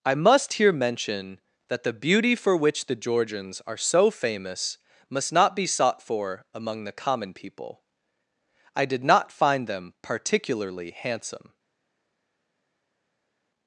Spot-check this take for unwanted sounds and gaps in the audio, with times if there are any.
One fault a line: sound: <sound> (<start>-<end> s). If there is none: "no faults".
no faults